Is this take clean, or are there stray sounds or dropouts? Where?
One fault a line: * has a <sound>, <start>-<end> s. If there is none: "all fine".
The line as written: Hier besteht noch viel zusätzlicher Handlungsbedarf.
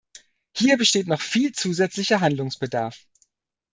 all fine